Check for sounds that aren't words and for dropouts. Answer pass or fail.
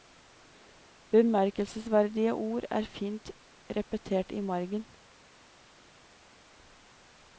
pass